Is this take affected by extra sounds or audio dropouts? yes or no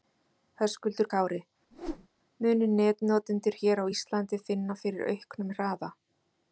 yes